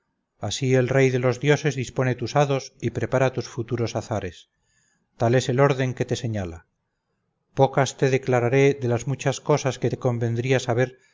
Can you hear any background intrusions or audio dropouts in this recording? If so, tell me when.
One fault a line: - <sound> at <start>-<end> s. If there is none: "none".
none